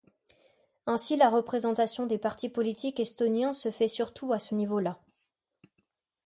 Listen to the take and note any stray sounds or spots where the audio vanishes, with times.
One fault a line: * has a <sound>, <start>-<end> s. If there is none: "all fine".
all fine